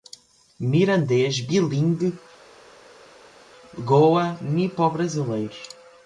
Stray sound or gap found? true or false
false